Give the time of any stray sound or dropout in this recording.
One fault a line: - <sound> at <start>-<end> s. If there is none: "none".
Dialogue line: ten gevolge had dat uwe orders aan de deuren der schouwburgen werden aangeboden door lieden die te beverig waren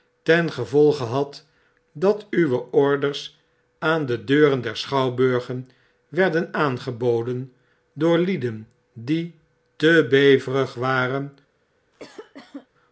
- cough at 11.9-12.7 s